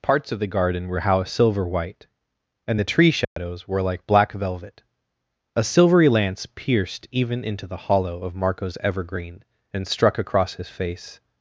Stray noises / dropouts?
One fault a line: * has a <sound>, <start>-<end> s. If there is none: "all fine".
* has a dropout, 3.2-3.4 s